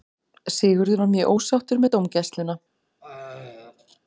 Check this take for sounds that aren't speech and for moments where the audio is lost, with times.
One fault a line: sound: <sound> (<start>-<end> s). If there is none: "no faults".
sound: throat clearing (3.0-4.0 s)